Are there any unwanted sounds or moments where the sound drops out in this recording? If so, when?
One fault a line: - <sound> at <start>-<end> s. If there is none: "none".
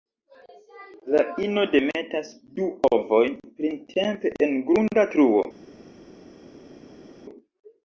none